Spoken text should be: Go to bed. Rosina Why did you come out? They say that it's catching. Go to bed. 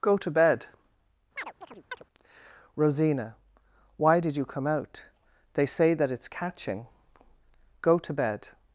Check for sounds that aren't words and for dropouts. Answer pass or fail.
fail